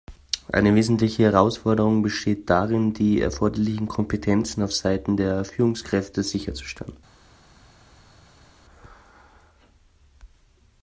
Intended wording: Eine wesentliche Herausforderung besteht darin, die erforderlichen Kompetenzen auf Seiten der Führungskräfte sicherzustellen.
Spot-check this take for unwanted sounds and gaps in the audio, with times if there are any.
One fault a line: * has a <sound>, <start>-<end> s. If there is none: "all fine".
all fine